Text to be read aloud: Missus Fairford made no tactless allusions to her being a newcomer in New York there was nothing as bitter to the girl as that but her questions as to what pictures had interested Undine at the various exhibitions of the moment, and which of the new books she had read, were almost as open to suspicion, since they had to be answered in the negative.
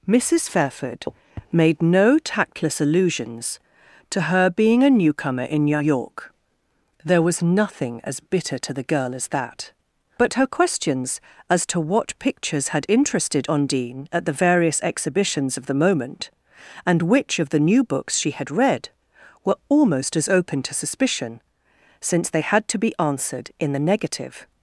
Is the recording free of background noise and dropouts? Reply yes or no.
yes